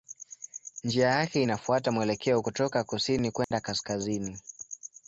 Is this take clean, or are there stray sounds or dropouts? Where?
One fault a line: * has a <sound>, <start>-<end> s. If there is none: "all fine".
* has a dropout, 3.4-3.5 s